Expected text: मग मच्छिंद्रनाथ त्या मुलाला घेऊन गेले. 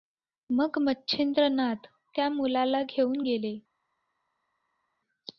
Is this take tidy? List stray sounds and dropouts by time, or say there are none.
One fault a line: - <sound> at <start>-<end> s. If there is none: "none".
none